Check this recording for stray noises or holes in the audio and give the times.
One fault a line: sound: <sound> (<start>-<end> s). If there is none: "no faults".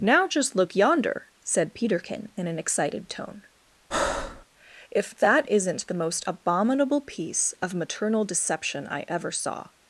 sound: breath (3.9-4.5 s)